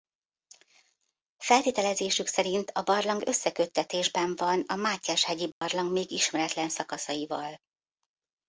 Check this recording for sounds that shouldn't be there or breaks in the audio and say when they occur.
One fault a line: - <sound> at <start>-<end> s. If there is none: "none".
- dropout at 5.5-5.6 s